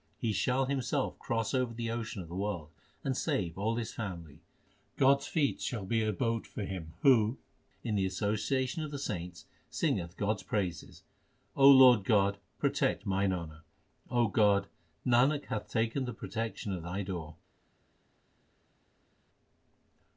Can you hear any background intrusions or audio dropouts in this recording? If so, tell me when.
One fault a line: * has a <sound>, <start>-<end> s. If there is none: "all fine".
all fine